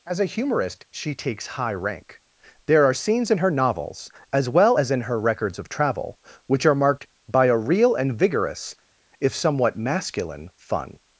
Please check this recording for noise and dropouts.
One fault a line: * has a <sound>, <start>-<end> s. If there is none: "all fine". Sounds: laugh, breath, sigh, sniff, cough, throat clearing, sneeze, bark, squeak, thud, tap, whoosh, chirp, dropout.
all fine